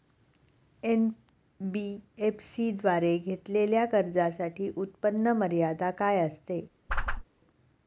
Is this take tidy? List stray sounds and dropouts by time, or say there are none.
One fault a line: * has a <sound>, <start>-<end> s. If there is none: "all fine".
* has a whoosh, 6.9-7.2 s